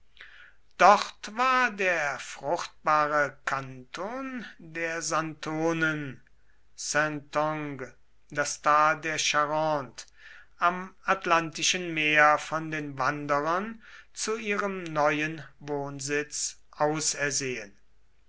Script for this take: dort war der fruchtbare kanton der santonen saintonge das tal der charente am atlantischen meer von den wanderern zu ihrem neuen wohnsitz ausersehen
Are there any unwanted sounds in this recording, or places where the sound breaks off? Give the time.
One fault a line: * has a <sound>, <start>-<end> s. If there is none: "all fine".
all fine